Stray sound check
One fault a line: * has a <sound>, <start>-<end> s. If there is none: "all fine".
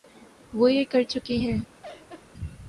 * has a laugh, 1.8-2.3 s